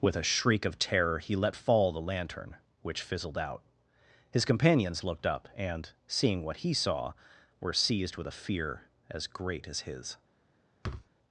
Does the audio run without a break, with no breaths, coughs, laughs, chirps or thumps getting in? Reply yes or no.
no